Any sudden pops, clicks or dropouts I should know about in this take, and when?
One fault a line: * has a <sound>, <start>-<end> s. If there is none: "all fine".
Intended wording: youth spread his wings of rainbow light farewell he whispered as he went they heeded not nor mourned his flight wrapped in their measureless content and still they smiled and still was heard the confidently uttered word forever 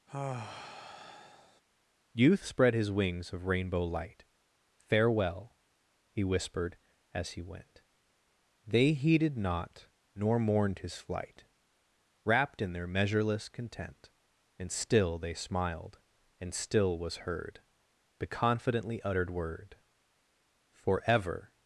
* has a sigh, 0.1-1.6 s